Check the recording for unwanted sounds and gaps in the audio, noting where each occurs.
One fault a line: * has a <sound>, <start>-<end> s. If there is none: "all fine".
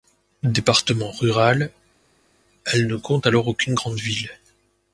all fine